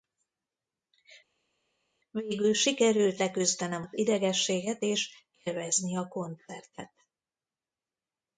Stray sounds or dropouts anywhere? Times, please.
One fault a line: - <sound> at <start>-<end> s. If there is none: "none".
none